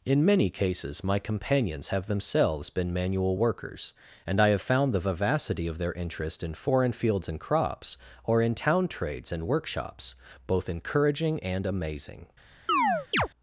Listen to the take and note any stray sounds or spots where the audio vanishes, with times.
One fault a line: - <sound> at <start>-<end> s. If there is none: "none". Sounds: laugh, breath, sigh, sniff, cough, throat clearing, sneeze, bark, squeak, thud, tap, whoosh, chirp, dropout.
- chirp at 12.7-13.3 s